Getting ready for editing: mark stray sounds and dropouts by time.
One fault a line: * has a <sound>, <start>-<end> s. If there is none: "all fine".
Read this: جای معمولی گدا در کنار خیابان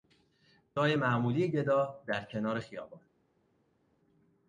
all fine